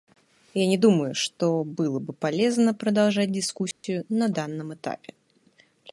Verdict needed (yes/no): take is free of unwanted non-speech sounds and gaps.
no